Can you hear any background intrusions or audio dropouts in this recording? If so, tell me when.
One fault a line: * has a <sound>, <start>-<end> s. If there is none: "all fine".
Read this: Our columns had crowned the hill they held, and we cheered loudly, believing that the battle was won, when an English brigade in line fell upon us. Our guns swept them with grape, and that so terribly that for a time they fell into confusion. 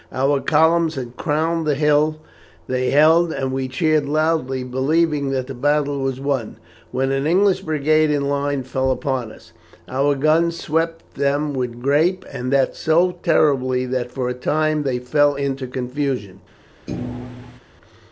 * has a thud, 16.9-17.6 s